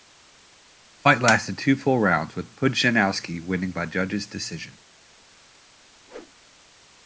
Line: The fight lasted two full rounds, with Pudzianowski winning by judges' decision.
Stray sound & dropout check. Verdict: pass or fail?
fail